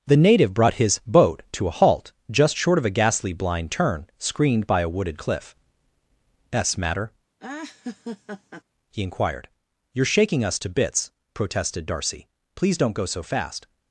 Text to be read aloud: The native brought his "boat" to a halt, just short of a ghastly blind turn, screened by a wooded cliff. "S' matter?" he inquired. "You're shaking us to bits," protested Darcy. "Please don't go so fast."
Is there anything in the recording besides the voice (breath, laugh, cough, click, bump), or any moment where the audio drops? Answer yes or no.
yes